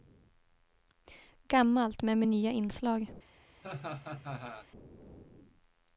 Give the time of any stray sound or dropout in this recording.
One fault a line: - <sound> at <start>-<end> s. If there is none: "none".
- laugh at 3.6-4.7 s